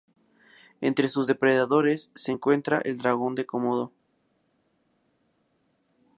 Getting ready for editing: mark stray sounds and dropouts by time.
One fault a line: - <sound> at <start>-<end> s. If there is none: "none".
none